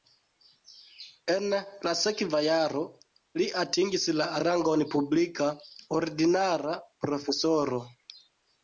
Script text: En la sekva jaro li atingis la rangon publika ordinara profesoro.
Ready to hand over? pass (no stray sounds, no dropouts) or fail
pass